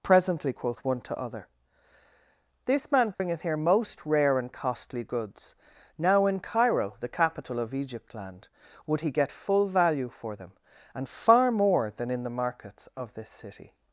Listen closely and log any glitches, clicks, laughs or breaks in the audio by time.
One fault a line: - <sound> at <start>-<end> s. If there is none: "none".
- dropout at 3.1-3.2 s